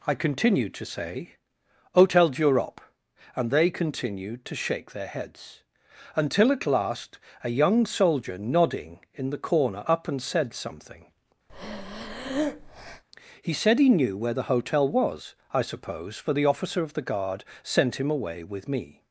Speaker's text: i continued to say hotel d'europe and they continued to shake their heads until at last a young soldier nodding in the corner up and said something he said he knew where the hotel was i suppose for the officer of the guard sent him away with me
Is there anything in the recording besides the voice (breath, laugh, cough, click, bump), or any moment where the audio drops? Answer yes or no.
yes